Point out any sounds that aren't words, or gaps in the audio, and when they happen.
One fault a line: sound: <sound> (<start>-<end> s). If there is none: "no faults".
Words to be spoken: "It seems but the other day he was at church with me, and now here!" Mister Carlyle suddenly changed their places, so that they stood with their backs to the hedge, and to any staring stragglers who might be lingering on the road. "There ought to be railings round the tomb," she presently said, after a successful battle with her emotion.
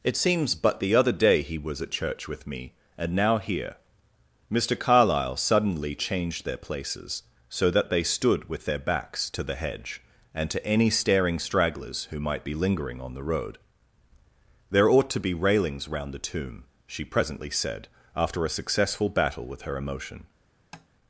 sound: tap (20.7-20.9 s)